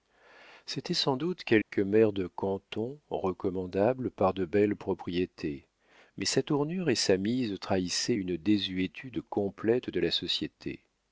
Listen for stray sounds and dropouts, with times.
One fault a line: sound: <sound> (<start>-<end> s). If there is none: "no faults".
sound: dropout (1.6-1.7 s)